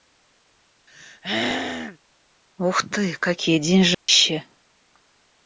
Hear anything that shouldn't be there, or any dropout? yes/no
yes